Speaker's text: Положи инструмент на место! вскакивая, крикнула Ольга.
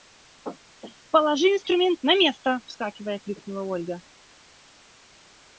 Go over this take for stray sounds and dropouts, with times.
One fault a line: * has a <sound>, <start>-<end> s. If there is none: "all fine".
all fine